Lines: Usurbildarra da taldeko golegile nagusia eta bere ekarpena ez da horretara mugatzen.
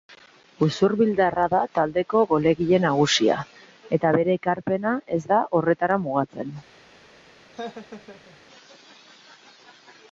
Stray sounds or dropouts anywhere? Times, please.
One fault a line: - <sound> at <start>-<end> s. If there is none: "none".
- laugh at 7.5-8.4 s